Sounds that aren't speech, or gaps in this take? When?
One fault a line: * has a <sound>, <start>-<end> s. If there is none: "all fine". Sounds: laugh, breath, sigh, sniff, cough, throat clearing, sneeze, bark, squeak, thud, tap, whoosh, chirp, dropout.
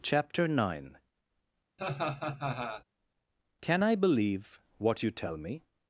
* has a laugh, 1.8-2.8 s